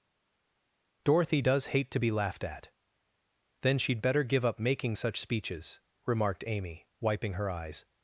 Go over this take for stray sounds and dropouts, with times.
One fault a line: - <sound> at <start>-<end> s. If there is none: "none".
none